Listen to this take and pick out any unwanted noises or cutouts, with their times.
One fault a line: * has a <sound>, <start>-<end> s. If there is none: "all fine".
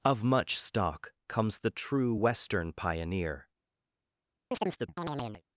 * has a chirp, 4.5-5.4 s